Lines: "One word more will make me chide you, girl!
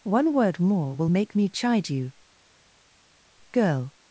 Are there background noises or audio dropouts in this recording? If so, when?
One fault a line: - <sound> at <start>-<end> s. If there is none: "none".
none